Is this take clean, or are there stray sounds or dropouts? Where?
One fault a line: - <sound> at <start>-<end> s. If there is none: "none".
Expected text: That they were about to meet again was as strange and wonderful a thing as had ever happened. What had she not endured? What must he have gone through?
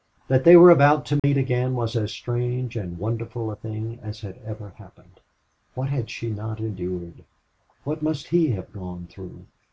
- dropout at 1.2-1.2 s